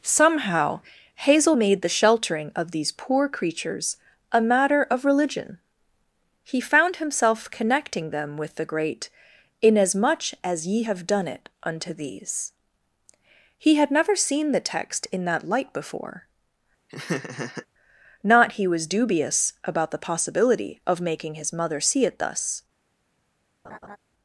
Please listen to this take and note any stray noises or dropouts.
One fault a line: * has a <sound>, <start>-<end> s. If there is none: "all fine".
* has a laugh, 16.9-17.7 s
* has a laugh, 23.6-24.0 s